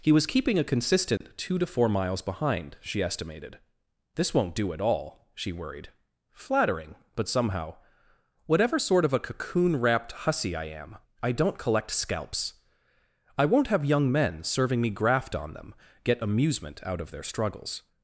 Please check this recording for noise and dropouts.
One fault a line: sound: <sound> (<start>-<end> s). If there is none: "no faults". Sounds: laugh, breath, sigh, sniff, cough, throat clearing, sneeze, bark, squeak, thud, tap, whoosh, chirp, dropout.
sound: dropout (1.2-1.2 s)